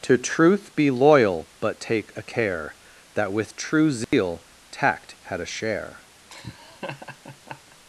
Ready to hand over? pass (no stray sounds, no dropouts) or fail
fail